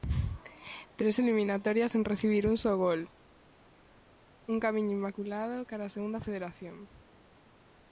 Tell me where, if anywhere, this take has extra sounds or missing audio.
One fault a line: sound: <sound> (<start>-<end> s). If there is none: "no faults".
no faults